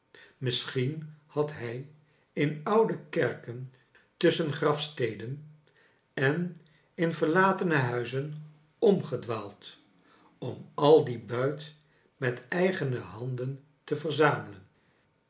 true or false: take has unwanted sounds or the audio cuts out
false